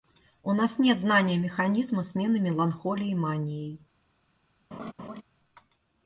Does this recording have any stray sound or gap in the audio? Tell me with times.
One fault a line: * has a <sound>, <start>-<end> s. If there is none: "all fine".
* has a laugh, 4.7-5.2 s